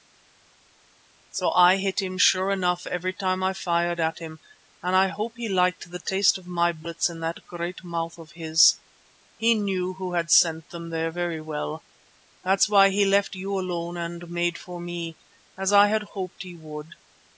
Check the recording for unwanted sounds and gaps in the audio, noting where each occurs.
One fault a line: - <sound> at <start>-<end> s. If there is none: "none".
none